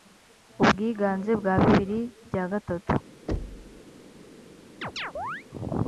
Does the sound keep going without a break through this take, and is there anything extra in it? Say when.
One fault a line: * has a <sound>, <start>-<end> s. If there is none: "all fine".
* has a thud, 3.3-3.8 s
* has a chirp, 4.8-5.4 s